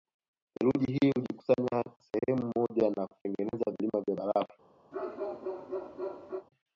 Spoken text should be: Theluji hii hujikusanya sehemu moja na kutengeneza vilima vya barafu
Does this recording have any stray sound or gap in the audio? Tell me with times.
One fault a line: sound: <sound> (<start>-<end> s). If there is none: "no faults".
sound: dropout (2.2-2.2 s)
sound: bark (4.9-6.5 s)